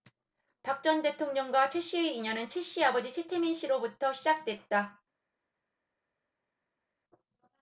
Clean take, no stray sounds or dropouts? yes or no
yes